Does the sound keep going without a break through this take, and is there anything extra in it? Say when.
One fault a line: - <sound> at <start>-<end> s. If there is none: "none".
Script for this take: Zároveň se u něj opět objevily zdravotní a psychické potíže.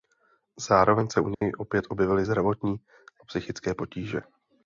- dropout at 1.3-1.4 s